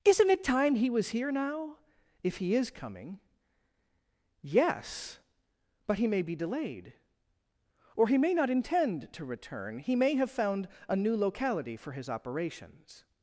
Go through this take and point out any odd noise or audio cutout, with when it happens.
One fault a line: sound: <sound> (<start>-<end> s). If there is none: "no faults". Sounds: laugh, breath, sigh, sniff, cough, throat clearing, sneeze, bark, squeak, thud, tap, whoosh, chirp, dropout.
no faults